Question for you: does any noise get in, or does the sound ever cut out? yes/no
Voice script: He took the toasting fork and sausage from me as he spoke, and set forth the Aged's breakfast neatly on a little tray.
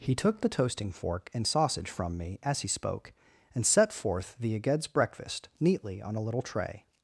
no